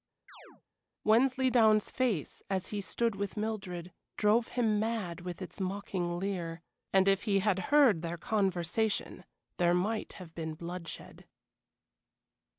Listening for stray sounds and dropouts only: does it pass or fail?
fail